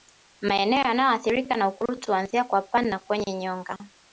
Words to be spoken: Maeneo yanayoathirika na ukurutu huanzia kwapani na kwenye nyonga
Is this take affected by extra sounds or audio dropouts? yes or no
no